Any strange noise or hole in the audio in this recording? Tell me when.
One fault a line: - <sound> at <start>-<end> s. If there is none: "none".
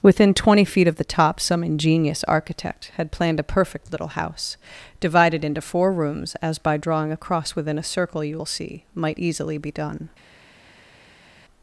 none